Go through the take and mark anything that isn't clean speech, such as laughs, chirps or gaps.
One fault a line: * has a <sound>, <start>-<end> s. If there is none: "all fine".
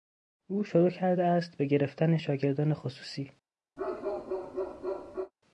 * has a bark, 3.8-5.3 s